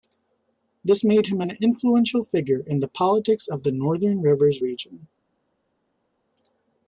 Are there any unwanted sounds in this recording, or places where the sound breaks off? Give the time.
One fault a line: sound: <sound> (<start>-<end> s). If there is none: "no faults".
no faults